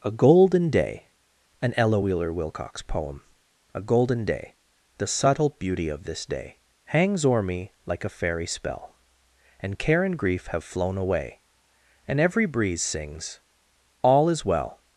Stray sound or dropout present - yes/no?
no